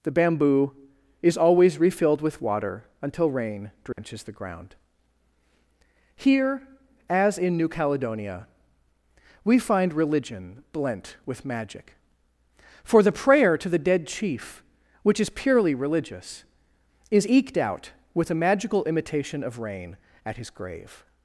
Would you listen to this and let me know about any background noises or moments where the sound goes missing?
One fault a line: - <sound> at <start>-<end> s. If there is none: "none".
- dropout at 3.9-4.0 s